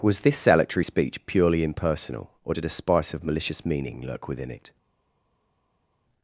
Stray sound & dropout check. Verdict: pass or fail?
pass